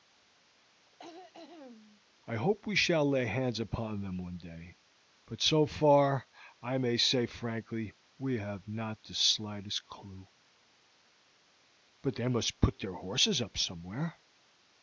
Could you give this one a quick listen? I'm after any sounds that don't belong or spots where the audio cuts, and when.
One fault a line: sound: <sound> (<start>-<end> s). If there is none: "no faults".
sound: throat clearing (0.8-2.0 s)